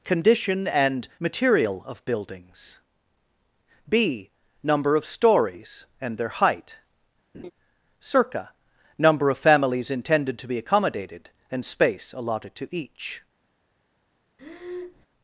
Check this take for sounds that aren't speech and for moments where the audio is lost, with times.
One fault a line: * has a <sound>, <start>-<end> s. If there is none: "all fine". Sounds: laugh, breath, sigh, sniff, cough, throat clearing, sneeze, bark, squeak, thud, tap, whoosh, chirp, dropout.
* has a laugh, 7.3-7.5 s
* has a breath, 14.4-15.1 s